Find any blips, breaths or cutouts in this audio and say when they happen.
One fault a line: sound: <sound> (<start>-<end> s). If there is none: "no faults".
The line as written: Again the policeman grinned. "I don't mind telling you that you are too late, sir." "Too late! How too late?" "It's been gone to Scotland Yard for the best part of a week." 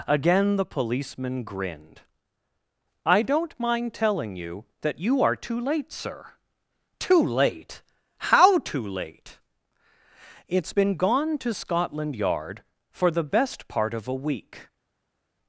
no faults